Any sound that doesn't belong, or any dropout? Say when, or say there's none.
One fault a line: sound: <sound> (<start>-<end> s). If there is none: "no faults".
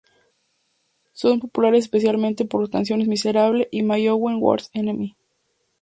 no faults